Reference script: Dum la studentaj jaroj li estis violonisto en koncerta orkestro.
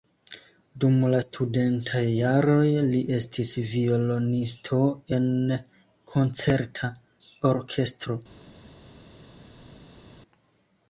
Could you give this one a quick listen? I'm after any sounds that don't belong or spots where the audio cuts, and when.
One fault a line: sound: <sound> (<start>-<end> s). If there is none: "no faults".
no faults